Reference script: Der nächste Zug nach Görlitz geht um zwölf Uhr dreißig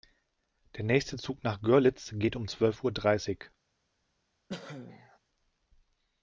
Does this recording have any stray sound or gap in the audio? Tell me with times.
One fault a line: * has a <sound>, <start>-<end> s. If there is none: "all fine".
* has a cough, 4.5-5.2 s